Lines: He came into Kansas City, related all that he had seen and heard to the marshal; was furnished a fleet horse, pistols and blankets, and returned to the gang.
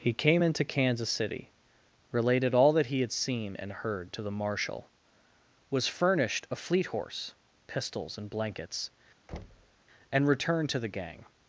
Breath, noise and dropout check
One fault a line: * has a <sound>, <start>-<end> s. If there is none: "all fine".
* has a thud, 9.3-9.8 s